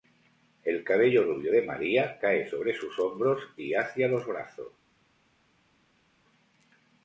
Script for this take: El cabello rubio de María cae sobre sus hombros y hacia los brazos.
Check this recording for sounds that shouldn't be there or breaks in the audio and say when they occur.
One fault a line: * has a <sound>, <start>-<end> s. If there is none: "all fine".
all fine